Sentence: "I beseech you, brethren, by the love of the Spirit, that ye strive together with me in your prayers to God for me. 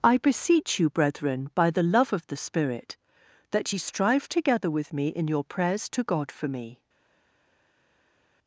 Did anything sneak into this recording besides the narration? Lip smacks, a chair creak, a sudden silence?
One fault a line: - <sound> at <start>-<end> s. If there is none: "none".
none